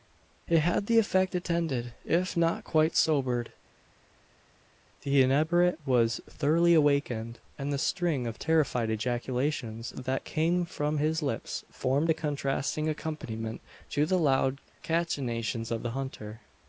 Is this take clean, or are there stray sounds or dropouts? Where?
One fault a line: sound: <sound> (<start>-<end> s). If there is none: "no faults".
no faults